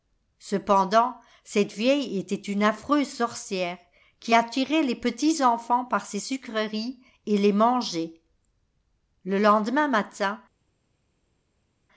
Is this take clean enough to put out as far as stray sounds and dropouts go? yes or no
yes